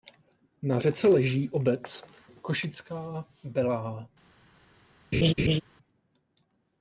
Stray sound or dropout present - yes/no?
yes